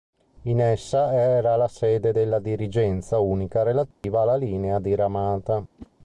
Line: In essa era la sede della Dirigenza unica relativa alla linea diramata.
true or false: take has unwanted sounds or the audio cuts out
true